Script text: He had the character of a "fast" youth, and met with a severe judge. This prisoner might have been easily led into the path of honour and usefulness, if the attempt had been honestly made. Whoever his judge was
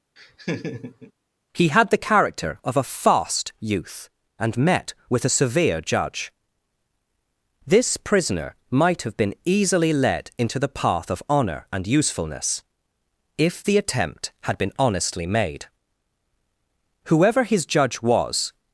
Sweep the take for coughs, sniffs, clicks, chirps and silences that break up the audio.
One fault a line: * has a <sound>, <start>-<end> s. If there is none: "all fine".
* has a laugh, 0.2-1.1 s